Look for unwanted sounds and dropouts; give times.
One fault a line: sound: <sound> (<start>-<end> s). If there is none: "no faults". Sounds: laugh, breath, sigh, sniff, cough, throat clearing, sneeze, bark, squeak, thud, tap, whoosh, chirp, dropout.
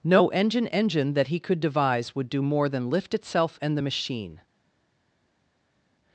no faults